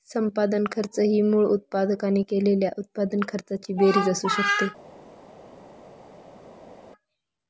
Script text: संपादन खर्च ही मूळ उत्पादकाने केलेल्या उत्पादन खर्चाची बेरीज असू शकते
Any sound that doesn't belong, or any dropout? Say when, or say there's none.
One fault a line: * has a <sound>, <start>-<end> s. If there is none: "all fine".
all fine